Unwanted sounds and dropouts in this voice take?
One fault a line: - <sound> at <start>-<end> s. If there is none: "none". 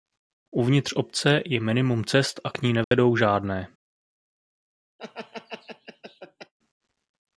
- dropout at 2.8-2.9 s
- laugh at 5.0-6.5 s